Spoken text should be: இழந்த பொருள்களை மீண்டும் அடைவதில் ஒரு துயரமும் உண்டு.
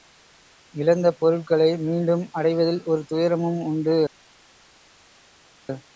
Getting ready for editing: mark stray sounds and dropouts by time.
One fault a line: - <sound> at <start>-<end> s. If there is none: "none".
none